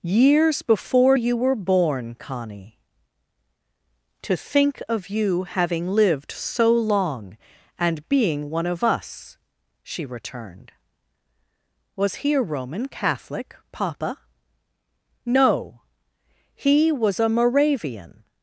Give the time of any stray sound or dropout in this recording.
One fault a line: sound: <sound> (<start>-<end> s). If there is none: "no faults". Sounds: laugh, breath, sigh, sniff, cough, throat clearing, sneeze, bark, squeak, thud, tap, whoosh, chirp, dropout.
no faults